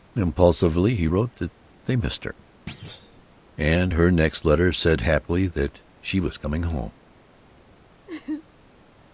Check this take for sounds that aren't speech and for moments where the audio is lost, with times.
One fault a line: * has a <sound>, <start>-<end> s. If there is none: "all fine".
* has a thud, 2.7-3.2 s
* has a laugh, 8.1-8.5 s